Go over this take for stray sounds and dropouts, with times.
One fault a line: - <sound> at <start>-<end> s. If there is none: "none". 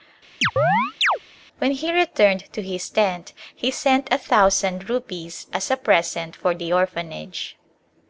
- chirp at 0.4-1.2 s